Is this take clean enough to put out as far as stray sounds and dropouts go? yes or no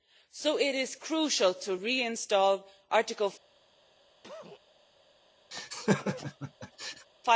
no